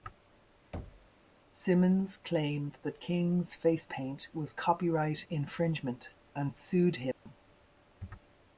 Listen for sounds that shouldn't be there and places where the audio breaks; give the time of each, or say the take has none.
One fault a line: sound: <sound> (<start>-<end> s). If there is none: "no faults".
sound: thud (0.7-1.1 s)
sound: dropout (7.1-7.3 s)